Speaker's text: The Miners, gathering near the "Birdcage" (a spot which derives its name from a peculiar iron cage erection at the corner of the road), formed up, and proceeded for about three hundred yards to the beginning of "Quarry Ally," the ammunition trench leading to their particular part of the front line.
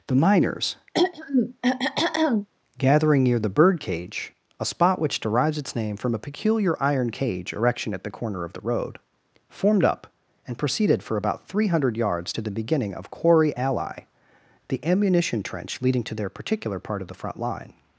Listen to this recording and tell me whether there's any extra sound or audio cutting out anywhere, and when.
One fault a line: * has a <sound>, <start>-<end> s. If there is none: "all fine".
* has a throat clearing, 0.9-2.5 s